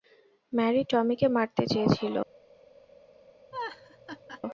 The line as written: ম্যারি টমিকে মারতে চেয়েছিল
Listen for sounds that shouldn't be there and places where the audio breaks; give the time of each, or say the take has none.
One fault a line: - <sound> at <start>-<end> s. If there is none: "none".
- laugh at 3.5-4.4 s